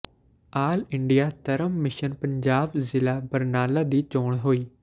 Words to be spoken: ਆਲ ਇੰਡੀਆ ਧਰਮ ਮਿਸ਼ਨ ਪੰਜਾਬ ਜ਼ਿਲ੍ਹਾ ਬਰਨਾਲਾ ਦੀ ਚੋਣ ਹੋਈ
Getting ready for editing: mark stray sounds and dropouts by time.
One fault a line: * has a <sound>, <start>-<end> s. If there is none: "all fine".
all fine